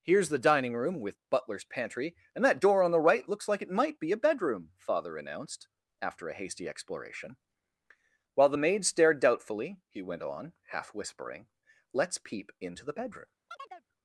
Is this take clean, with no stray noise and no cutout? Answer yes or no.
no